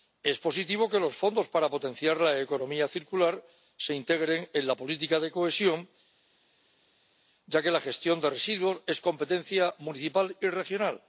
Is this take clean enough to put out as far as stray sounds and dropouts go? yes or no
yes